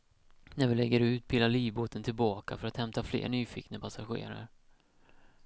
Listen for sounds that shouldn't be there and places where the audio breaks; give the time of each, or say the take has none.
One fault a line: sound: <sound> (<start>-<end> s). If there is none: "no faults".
no faults